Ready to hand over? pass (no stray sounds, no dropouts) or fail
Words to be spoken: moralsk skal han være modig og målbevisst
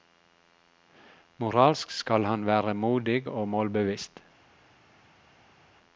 pass